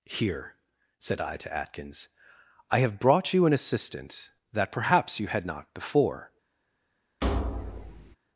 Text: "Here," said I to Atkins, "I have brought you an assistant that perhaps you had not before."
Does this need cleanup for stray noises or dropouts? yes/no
yes